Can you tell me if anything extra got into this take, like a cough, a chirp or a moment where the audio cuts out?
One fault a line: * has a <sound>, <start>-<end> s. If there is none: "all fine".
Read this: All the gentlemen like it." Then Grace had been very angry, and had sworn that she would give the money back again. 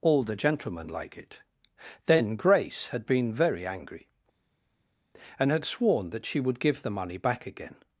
all fine